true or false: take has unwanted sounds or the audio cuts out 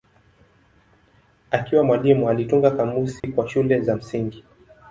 true